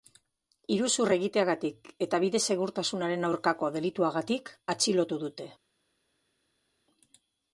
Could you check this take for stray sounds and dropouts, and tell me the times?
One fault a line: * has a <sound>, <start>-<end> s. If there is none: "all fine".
all fine